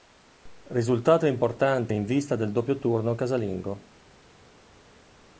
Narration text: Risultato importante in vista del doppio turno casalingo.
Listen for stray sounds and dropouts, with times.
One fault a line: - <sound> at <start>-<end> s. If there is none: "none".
none